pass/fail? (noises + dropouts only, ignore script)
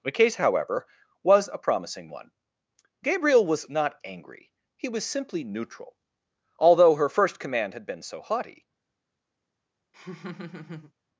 fail